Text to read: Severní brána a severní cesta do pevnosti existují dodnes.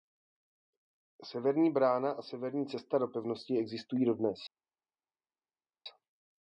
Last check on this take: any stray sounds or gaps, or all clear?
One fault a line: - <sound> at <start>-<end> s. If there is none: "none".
none